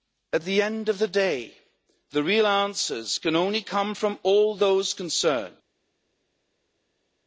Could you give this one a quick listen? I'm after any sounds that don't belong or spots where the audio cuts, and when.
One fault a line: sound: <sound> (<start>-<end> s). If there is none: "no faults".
no faults